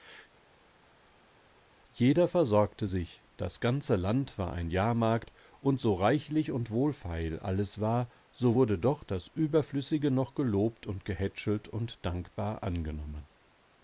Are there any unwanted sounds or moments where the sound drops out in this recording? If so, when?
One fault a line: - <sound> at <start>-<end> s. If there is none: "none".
none